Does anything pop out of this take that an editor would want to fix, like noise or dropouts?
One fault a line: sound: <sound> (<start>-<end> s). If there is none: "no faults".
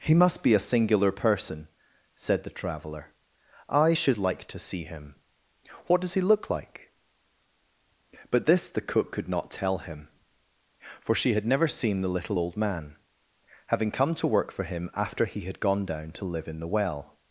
no faults